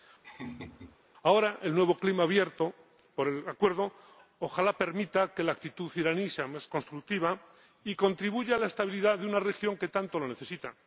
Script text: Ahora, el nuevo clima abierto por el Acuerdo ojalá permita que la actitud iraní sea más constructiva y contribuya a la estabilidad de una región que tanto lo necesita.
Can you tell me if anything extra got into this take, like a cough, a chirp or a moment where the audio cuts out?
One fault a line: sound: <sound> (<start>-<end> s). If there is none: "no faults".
sound: laugh (0.2-1.0 s)